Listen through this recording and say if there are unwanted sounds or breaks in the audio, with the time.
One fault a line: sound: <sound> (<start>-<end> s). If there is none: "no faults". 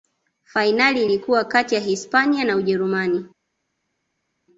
no faults